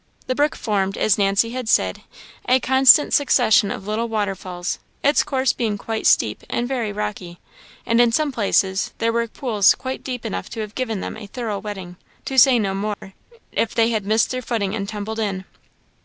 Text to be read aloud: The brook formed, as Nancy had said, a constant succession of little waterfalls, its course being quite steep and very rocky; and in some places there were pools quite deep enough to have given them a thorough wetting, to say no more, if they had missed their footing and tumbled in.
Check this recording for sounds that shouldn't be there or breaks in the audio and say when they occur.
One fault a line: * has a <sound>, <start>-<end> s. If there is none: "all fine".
* has a dropout, 12.9-13.0 s